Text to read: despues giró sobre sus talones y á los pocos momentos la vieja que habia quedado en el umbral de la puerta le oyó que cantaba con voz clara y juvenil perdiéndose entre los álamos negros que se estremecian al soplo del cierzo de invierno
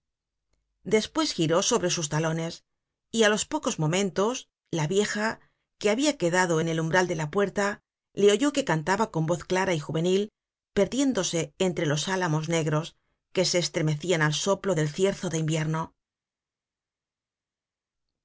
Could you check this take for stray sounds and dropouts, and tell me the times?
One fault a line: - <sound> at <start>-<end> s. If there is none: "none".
none